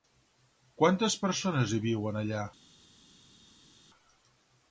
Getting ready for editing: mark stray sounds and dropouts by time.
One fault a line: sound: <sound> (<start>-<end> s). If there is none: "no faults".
no faults